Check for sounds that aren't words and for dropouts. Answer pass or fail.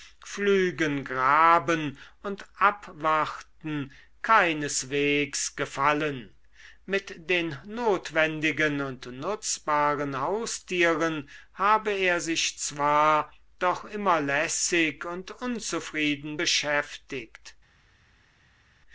pass